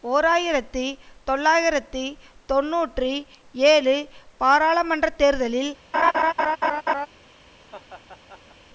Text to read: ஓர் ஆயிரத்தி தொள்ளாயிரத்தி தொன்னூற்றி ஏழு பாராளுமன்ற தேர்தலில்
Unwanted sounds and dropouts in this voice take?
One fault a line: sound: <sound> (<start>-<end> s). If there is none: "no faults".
sound: laugh (5.9-7.1 s)
sound: laugh (7.7-8.6 s)